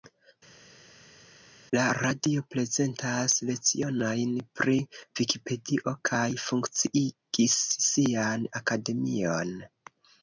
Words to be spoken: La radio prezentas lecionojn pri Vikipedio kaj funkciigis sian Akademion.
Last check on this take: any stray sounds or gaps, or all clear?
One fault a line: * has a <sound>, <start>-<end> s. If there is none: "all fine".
all fine